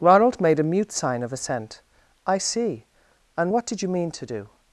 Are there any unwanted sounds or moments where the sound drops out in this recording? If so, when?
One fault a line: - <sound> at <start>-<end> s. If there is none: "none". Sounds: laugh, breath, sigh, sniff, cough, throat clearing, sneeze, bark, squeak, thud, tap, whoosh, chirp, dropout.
none